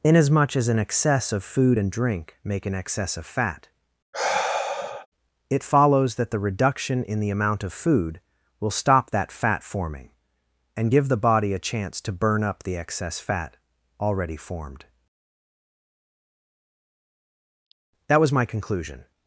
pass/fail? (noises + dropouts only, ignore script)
fail